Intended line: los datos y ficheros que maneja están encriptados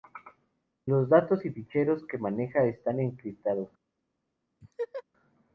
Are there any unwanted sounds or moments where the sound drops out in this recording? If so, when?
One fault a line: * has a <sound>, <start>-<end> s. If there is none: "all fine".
* has a laugh, 4.6-5.0 s